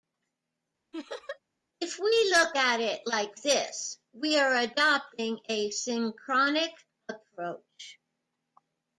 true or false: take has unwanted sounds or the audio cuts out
true